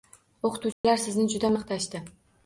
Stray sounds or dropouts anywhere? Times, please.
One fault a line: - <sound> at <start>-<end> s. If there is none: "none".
- dropout at 0.7-0.8 s